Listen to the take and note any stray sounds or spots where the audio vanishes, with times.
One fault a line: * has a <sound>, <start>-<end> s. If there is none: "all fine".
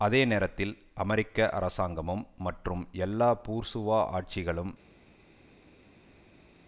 all fine